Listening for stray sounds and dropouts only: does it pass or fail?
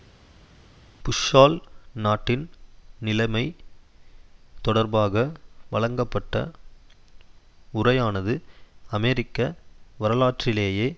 pass